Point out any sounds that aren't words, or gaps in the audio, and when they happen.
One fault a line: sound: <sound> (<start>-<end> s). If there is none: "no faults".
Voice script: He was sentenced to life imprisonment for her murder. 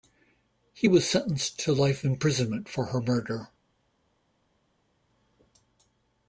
no faults